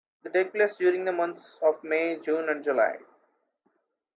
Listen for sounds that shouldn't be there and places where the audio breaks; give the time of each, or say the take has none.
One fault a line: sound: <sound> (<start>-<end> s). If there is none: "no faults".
no faults